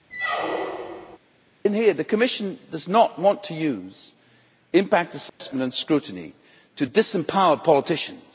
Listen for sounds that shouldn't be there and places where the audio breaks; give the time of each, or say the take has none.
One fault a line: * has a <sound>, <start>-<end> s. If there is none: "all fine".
* has a squeak, 0.1-1.2 s
* has a dropout, 5.3-5.4 s